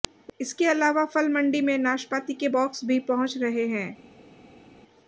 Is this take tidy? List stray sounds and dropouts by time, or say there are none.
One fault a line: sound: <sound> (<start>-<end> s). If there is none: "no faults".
no faults